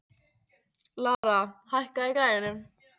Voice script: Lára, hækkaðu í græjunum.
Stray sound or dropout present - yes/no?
yes